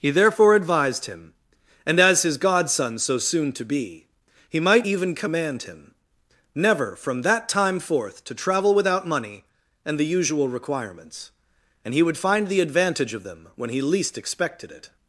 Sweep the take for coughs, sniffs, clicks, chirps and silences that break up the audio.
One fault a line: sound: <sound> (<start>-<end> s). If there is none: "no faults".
no faults